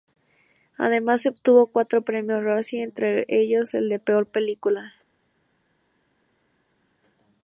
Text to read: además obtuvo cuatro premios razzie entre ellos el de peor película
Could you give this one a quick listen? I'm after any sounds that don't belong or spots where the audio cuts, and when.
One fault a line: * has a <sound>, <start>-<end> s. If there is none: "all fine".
all fine